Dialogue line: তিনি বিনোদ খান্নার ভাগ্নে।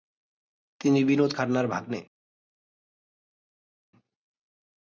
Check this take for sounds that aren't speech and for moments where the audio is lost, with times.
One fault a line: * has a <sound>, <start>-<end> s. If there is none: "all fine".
all fine